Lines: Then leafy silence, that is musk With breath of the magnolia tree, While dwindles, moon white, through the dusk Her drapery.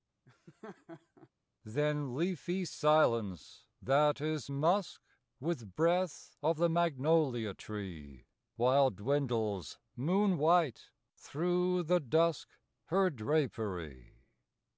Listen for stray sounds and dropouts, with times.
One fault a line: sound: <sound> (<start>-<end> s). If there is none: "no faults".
sound: laugh (0.2-1.3 s)